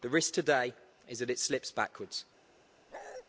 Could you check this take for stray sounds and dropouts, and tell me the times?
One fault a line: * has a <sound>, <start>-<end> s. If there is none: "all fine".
* has a bark, 2.9-3.2 s